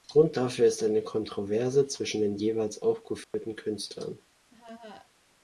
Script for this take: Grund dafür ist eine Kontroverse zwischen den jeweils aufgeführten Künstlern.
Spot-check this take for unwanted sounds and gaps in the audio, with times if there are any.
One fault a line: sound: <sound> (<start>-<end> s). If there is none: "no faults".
sound: dropout (3.2-3.3 s)
sound: laugh (4.5-5.1 s)